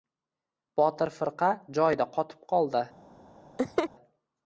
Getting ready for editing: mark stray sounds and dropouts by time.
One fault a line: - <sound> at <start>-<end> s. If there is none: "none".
- laugh at 3.6-3.9 s